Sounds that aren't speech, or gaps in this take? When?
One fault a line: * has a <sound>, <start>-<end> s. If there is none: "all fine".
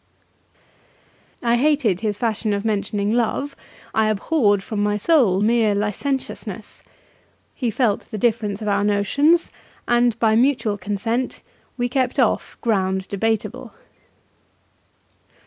all fine